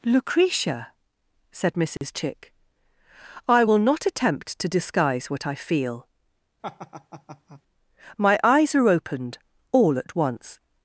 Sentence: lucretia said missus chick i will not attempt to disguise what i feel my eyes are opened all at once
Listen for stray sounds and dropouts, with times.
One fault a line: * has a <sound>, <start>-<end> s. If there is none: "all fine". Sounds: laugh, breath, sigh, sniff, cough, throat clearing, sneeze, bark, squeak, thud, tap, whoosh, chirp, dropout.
* has a dropout, 2.0-2.0 s
* has a laugh, 6.6-7.6 s